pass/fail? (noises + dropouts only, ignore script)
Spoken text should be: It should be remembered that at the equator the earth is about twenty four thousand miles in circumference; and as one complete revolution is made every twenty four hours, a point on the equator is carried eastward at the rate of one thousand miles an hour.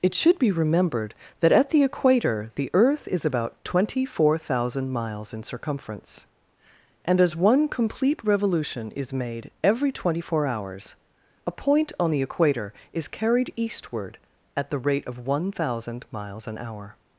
pass